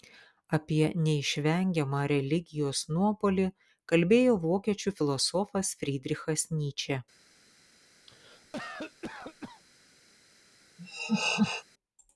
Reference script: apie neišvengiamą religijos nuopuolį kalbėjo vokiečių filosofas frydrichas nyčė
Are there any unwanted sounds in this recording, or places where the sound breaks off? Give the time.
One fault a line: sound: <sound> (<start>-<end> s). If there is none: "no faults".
sound: cough (8.1-9.6 s)
sound: laugh (10.8-11.6 s)